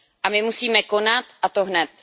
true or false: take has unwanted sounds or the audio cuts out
false